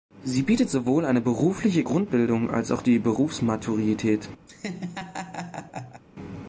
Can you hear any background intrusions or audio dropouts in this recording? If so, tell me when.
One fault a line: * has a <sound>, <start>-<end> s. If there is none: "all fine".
* has a laugh, 4.5-6.0 s